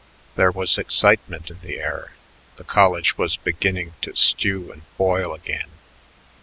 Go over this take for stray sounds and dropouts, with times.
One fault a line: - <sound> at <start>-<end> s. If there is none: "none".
none